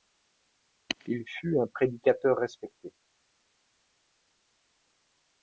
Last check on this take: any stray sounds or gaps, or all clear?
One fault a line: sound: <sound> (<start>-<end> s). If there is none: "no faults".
no faults